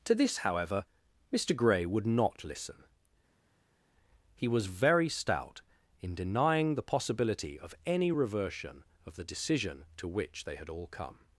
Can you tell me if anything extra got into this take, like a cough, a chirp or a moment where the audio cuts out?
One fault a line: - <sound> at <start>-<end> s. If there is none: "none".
none